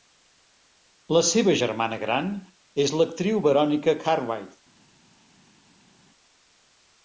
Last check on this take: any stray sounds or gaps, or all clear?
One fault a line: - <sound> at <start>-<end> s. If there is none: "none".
none